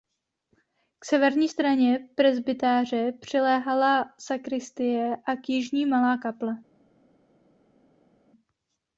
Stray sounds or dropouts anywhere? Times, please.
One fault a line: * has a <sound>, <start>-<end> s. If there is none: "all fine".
all fine